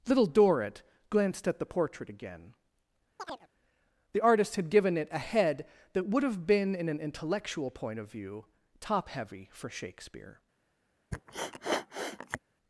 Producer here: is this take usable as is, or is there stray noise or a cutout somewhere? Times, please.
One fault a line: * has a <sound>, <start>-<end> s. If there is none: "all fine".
* has a chirp, 3.2-3.5 s
* has a sniff, 11.1-12.4 s